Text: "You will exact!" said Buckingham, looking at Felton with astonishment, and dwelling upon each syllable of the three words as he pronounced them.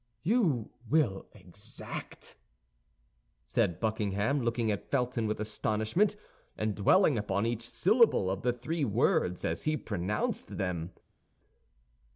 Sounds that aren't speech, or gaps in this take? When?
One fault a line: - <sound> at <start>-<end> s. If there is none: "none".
none